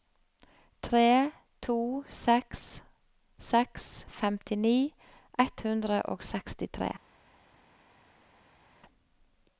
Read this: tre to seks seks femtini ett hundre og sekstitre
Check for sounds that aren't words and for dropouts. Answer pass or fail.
pass